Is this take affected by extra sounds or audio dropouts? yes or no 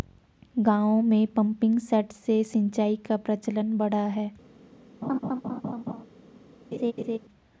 yes